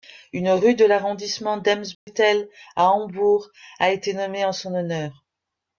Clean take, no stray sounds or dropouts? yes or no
no